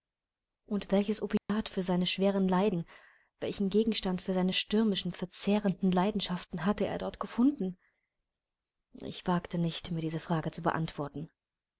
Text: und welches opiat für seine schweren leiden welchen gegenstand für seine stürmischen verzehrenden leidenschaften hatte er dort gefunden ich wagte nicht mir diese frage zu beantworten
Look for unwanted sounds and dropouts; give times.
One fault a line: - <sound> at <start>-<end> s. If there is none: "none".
- dropout at 1.4-1.5 s